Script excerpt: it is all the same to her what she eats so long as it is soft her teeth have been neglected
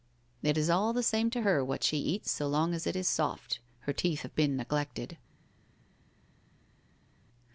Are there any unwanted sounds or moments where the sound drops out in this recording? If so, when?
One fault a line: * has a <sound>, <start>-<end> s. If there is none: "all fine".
all fine